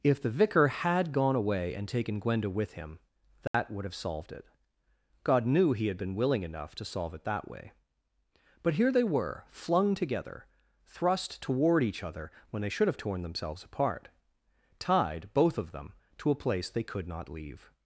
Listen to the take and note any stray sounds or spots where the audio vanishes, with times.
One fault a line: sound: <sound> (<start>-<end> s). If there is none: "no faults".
sound: dropout (3.5-3.5 s)